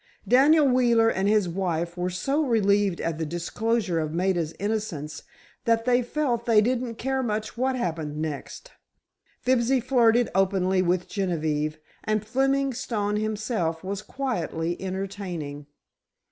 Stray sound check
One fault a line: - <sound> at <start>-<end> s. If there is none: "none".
none